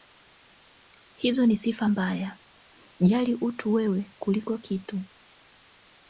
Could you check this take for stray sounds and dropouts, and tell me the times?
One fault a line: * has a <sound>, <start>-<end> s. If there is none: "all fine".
all fine